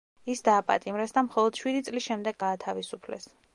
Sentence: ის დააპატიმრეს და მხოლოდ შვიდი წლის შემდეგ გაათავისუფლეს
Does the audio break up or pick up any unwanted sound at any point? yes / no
no